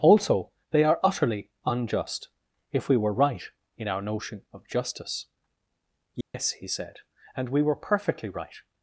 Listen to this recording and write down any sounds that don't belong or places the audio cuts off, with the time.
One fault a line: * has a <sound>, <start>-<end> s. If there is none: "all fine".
* has a dropout, 6.2-6.3 s